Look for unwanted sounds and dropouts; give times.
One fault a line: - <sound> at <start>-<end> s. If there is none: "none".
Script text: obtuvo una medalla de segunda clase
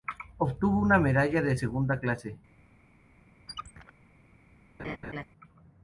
- squeak at 3.5-3.9 s
- laugh at 4.8-5.2 s